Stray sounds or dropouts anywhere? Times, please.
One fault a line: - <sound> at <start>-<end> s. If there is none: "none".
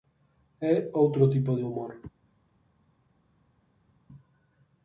none